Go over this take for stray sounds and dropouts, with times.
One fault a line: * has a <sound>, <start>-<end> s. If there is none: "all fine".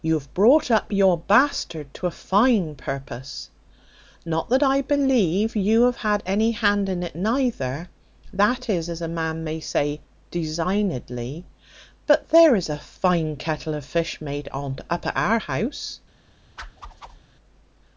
* has a whoosh, 16.6-17.2 s